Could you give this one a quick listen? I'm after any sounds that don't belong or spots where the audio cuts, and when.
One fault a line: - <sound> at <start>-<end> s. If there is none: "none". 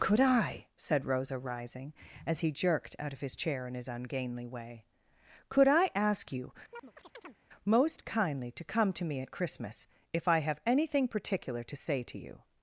- chirp at 6.7-7.4 s